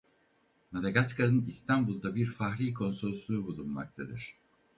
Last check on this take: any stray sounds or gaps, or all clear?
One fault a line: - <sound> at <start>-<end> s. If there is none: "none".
none